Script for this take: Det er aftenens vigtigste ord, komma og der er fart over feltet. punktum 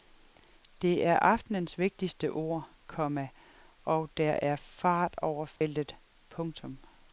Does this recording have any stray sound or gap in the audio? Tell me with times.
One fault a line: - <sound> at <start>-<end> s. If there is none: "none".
- dropout at 5.6-5.6 s